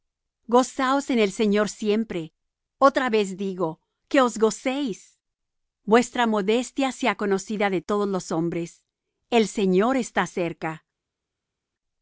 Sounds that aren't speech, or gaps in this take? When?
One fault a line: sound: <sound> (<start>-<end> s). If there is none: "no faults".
no faults